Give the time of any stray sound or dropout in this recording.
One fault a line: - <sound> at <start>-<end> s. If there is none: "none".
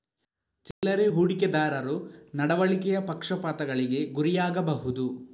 - dropout at 0.7-0.8 s